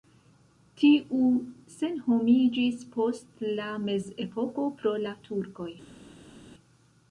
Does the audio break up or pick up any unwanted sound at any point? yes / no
no